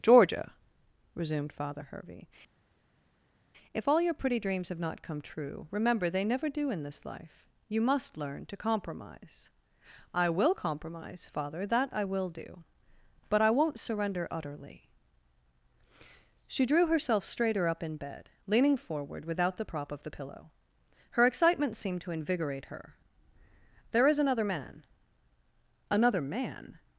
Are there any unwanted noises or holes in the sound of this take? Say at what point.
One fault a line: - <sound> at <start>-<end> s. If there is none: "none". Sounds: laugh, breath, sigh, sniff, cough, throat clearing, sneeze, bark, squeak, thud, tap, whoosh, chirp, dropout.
none